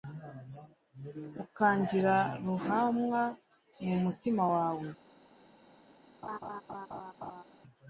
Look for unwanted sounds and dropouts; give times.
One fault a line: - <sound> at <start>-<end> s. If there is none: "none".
- laugh at 6.2-7.4 s